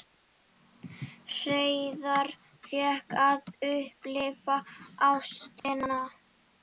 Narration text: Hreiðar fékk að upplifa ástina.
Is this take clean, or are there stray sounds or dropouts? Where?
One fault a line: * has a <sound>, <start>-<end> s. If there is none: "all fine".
* has a dropout, 5.6-5.6 s